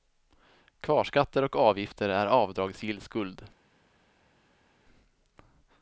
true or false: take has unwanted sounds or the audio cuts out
false